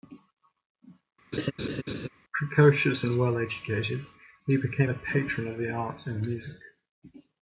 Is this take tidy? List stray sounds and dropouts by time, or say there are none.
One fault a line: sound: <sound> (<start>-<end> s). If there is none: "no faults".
sound: laugh (1.3-2.1 s)